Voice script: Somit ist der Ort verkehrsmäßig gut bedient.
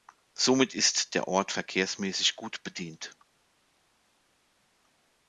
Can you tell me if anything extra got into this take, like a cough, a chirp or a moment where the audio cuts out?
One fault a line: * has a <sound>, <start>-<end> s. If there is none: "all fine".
all fine